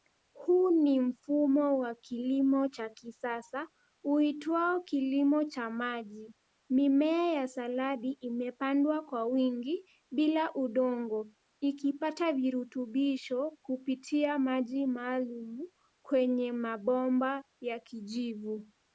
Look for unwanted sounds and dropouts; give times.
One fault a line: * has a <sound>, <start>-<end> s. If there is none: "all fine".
all fine